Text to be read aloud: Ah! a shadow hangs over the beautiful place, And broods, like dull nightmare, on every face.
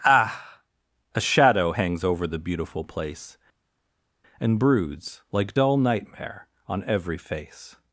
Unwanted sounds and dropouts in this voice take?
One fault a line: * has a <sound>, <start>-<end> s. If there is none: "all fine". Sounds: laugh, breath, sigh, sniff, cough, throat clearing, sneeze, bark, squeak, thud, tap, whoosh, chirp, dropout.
all fine